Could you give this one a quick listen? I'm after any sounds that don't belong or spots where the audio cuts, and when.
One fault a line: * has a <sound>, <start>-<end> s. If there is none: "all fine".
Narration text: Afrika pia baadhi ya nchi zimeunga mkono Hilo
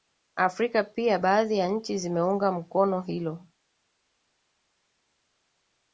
all fine